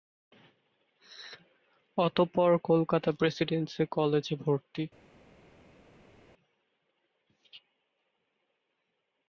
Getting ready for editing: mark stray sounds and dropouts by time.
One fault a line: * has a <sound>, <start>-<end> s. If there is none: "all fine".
all fine